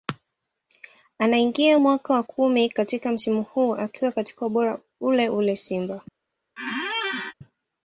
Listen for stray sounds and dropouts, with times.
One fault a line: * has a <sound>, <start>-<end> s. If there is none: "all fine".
* has a squeak, 6.6-7.3 s